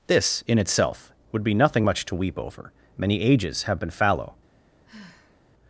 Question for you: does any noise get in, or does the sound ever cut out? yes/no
yes